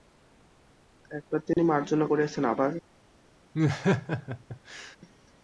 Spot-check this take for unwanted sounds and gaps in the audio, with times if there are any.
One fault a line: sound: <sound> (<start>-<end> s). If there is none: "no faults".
sound: dropout (1.5-1.6 s)
sound: laugh (3.5-5.0 s)